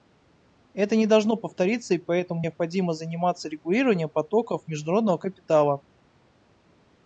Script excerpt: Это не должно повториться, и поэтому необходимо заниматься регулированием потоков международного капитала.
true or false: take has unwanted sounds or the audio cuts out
false